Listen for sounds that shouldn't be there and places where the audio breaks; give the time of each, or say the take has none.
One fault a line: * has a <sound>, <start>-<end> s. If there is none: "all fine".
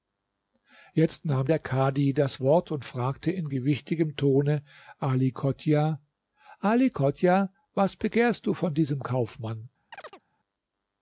* has a chirp, 9.9-10.2 s